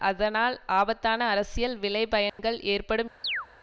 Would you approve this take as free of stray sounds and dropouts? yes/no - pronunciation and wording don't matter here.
no